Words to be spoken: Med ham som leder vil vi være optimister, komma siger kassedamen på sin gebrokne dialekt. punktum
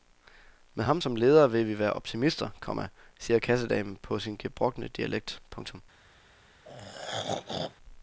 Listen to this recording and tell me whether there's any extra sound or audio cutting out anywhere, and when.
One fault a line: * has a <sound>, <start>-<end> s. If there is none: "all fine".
* has a throat clearing, 6.6-7.8 s